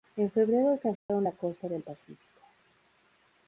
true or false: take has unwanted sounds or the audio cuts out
true